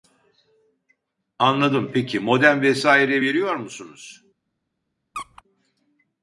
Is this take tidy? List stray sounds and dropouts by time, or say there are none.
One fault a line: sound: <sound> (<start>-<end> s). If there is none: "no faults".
sound: squeak (5.1-5.4 s)